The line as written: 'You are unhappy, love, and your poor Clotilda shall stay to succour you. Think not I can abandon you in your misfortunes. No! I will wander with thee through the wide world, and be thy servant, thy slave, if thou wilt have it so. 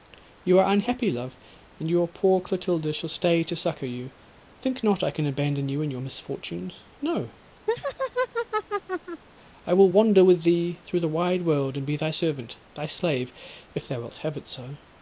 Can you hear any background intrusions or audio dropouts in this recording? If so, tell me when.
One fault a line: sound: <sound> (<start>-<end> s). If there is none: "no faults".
sound: laugh (7.7-9.2 s)